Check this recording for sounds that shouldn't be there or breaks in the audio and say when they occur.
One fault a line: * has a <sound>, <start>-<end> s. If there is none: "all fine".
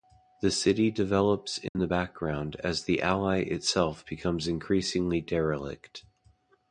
* has a dropout, 1.7-1.8 s